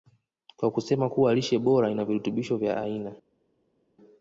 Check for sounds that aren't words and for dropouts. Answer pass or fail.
pass